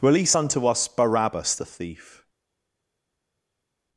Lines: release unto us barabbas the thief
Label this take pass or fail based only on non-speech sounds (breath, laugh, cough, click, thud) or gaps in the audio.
pass